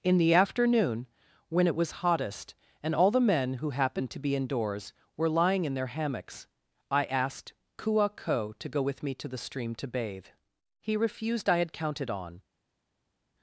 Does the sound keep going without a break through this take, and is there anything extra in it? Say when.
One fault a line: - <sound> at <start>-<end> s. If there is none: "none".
none